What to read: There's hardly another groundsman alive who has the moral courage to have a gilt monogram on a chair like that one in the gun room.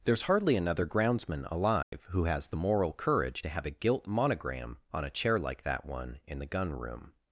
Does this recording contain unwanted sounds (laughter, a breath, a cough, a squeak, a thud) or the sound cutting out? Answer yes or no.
yes